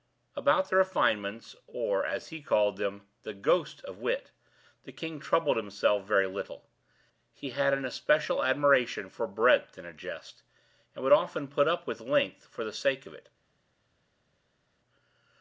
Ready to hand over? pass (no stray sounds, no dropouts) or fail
pass